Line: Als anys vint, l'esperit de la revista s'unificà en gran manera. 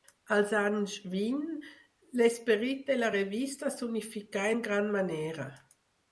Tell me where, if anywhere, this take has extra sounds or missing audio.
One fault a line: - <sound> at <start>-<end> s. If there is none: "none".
none